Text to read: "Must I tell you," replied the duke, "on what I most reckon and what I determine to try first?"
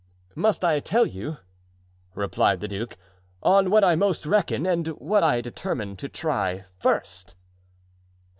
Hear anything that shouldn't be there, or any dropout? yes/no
no